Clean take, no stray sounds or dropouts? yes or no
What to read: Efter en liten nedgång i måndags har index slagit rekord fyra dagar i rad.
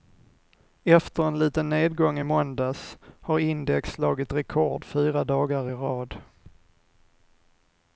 yes